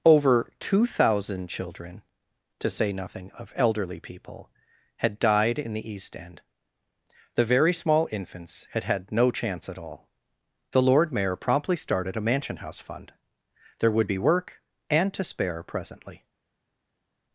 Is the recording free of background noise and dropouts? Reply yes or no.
yes